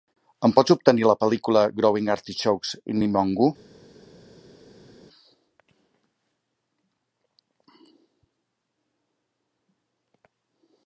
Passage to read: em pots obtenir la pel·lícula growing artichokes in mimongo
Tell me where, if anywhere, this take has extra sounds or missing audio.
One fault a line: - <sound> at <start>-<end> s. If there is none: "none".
none